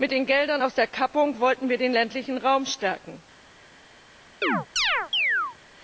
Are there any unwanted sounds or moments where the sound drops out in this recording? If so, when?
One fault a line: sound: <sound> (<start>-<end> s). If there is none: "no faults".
sound: chirp (4.4-5.6 s)